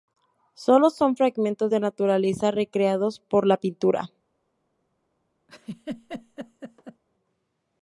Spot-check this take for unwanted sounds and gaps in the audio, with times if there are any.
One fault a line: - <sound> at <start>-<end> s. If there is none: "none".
- laugh at 5.5-7.0 s